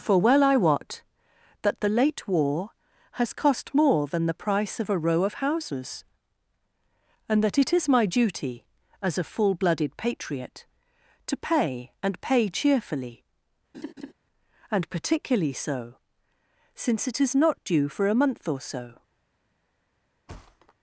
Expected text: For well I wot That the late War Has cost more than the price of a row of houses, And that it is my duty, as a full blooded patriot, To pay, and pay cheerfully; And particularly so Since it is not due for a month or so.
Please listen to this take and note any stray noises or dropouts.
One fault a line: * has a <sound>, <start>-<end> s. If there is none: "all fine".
* has a laugh, 13.7-14.1 s
* has a thud, 20.3-20.7 s